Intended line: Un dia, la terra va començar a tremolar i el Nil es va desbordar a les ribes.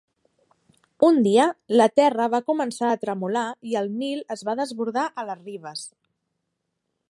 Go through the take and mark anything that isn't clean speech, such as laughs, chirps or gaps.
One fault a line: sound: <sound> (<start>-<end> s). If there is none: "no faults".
no faults